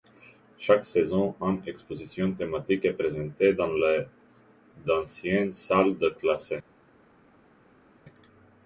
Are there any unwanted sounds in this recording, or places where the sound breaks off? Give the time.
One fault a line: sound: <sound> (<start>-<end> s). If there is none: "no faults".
no faults